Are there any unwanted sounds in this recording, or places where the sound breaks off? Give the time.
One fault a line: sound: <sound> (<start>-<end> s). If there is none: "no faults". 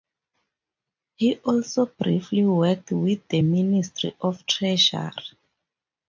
no faults